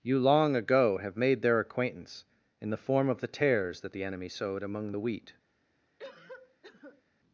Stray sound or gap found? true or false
true